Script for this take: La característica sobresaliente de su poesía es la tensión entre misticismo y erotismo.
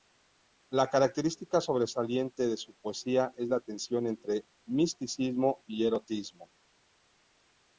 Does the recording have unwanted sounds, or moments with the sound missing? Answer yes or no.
no